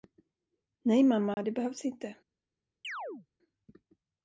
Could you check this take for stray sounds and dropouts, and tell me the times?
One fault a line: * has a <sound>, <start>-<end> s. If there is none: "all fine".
* has a dropout, 1.3-1.4 s
* has a chirp, 2.8-3.3 s